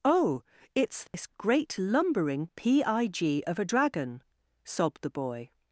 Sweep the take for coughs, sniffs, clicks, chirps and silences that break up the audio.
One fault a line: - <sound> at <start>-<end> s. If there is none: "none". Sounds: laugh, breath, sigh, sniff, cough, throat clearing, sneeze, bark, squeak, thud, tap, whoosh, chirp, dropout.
- dropout at 1.1-1.1 s